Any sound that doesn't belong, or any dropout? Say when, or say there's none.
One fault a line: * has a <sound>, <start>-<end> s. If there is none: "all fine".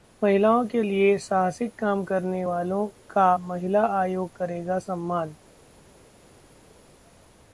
all fine